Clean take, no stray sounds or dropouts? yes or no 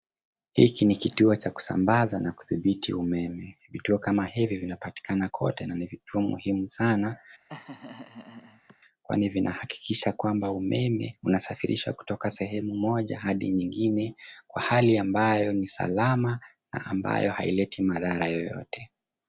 no